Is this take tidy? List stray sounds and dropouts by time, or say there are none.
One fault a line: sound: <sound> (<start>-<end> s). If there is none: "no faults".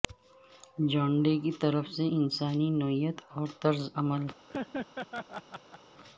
sound: laugh (4.5-5.8 s)